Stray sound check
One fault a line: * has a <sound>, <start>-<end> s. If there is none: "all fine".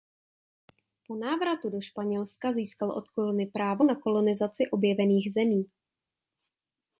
all fine